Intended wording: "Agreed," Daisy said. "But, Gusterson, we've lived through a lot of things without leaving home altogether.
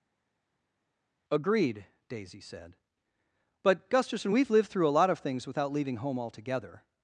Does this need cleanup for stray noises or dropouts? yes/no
no